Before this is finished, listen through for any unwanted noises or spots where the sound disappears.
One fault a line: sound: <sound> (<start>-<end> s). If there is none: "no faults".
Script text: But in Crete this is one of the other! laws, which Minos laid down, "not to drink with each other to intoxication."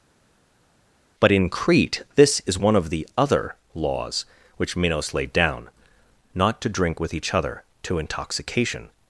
no faults